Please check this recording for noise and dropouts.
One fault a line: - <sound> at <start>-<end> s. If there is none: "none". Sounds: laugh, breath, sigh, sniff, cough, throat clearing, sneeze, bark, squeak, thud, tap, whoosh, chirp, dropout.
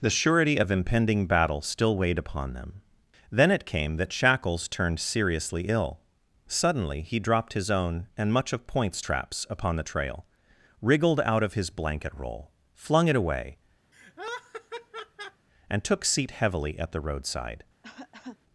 - laugh at 13.9-15.5 s
- cough at 17.8-18.4 s